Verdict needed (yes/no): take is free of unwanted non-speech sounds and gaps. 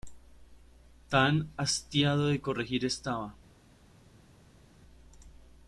yes